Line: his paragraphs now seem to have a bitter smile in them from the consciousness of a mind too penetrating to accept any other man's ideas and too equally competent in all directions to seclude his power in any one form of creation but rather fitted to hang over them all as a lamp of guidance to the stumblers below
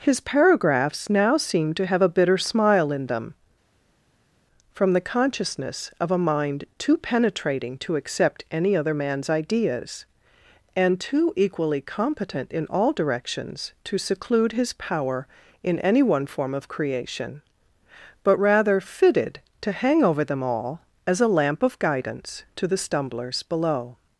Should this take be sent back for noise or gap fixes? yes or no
no